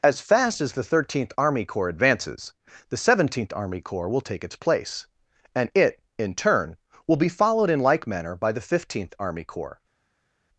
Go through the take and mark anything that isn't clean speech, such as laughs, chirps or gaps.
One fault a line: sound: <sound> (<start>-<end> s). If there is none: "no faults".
no faults